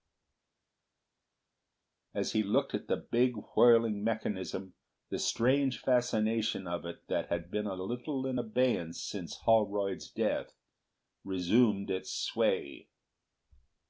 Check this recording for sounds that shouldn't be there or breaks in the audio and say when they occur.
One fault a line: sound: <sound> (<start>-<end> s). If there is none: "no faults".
no faults